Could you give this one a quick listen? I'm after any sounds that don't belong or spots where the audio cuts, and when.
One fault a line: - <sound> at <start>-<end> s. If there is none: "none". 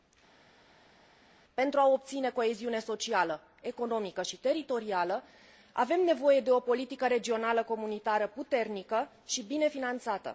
none